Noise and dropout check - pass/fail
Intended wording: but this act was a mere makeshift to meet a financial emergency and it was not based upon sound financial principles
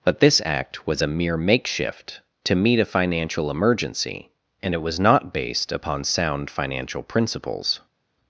pass